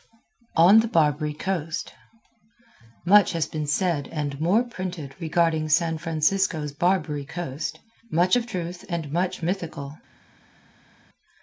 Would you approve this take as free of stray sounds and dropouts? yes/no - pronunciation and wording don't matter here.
yes